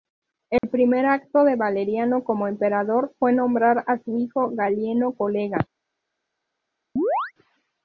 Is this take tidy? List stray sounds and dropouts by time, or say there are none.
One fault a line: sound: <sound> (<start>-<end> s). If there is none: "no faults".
sound: dropout (0.6-0.6 s)
sound: chirp (7.0-7.3 s)